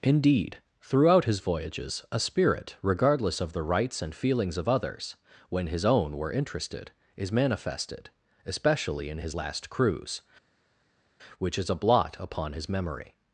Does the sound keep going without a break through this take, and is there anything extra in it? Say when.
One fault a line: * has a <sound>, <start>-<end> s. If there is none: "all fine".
all fine